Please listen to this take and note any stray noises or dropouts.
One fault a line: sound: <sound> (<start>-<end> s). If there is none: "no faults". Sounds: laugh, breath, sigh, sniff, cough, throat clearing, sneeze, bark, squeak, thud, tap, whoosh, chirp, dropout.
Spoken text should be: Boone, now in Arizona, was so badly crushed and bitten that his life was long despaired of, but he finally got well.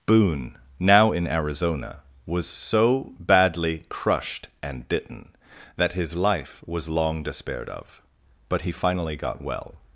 no faults